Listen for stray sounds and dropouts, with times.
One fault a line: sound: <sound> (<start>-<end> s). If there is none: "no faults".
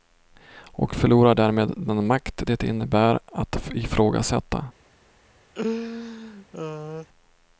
sound: laugh (5.5-7.1 s)